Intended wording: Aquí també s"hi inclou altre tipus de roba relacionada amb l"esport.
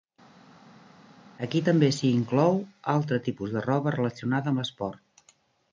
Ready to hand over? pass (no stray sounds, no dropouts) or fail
pass